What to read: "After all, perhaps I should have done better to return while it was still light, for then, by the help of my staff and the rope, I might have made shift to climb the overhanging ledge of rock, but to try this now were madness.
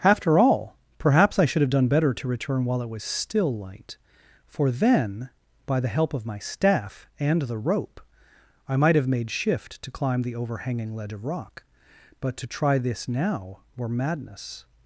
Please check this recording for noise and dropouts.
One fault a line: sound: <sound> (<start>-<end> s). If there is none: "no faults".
no faults